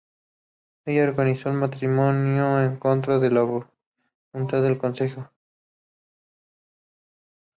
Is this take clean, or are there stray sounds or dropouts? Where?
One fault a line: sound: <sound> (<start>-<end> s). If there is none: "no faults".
no faults